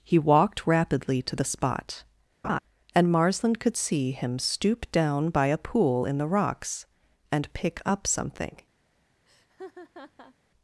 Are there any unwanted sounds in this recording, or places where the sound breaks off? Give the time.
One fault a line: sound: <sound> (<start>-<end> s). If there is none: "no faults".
sound: laugh (2.4-2.6 s)
sound: laugh (9.3-10.3 s)